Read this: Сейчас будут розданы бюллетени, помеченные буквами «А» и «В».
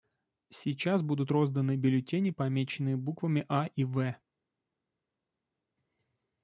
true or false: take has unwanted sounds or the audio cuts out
false